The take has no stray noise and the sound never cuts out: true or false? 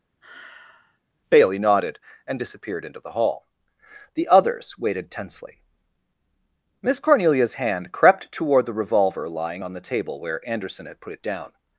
false